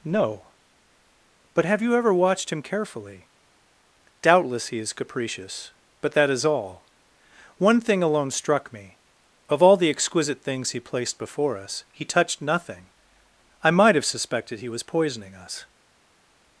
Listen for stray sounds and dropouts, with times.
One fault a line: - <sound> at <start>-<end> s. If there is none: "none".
none